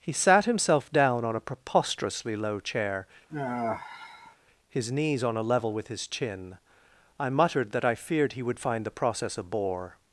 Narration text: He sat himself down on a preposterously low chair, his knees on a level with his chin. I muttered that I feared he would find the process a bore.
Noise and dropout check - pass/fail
fail